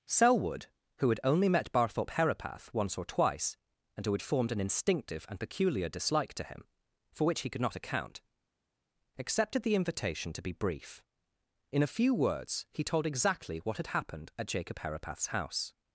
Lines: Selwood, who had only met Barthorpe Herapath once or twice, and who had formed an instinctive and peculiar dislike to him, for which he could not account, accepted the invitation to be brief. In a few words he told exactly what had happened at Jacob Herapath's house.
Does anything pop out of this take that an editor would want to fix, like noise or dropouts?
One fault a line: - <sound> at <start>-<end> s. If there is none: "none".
none